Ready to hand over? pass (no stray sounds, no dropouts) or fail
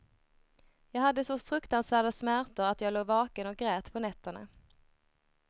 pass